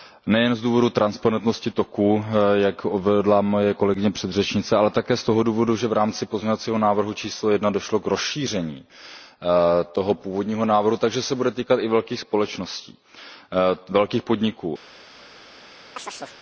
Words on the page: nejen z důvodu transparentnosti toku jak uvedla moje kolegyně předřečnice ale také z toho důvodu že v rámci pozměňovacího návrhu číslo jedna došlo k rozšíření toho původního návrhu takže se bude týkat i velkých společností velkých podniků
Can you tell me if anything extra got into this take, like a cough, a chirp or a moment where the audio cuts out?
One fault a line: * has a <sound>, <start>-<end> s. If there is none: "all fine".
* has a chirp, 16.0-16.4 s